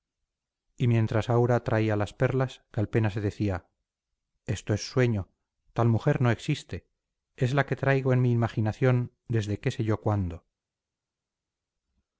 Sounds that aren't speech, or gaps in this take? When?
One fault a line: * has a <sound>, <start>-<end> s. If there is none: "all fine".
all fine